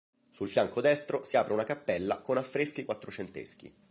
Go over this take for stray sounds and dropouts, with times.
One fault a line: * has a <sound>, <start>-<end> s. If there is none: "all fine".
all fine